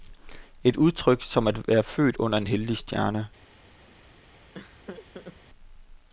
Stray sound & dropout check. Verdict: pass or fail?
fail